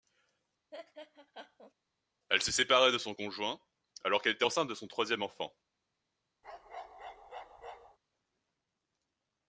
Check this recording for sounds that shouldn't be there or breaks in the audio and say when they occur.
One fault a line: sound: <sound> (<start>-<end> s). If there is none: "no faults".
sound: laugh (0.7-1.7 s)
sound: bark (6.4-8.0 s)